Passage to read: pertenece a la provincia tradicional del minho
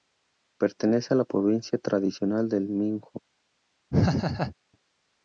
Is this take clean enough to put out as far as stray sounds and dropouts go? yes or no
no